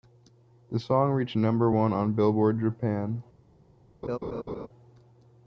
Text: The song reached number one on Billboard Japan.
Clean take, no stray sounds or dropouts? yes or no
no